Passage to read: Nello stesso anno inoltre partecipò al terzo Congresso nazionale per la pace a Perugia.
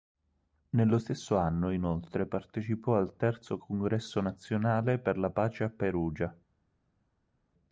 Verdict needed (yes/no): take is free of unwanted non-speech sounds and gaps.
yes